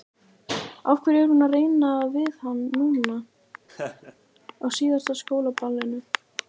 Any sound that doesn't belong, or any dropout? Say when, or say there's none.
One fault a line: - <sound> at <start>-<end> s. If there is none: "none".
- laugh at 3.7-4.2 s